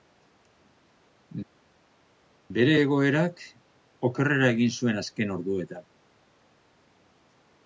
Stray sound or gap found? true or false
false